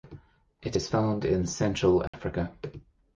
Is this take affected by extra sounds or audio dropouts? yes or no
yes